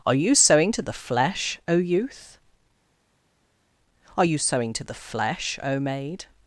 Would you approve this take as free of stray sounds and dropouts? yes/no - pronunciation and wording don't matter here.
yes